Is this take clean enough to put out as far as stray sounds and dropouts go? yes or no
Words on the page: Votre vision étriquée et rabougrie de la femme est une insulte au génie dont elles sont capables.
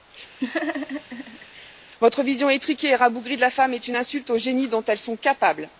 no